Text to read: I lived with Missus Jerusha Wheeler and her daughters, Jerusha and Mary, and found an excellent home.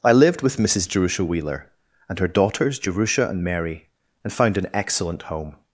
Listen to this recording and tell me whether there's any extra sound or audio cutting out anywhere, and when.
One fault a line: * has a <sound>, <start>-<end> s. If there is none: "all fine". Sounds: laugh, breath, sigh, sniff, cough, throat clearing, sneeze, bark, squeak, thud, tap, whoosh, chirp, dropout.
all fine